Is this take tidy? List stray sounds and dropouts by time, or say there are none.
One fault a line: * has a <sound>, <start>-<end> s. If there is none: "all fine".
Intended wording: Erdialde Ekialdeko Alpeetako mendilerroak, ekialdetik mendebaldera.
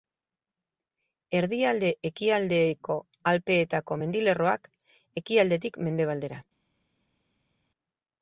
all fine